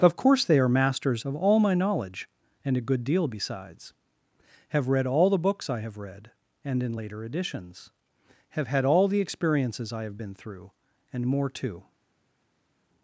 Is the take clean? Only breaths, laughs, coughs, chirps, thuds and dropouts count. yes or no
yes